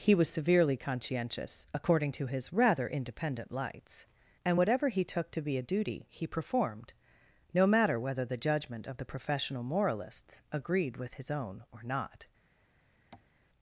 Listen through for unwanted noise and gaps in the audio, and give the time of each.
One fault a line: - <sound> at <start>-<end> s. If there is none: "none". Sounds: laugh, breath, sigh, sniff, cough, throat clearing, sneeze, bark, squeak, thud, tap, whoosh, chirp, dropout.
- tap at 13.1-13.3 s